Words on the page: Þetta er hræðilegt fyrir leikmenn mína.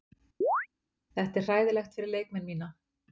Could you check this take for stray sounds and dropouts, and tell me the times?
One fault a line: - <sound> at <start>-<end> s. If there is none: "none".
- chirp at 0.4-0.7 s